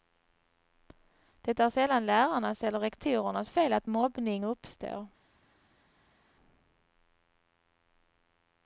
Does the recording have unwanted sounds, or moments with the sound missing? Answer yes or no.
no